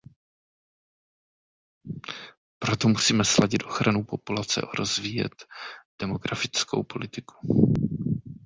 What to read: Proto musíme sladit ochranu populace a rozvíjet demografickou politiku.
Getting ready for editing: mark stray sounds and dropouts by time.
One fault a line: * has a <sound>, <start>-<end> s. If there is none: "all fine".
all fine